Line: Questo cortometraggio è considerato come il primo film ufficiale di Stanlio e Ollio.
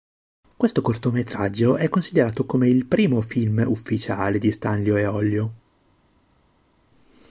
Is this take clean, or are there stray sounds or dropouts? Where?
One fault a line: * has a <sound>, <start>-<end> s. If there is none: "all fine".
all fine